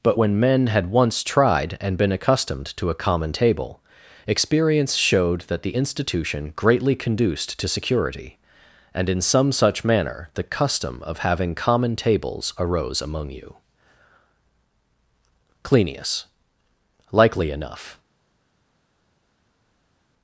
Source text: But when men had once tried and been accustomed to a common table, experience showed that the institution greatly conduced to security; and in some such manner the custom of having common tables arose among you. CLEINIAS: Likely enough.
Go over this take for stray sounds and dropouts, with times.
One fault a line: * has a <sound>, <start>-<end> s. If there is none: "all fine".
all fine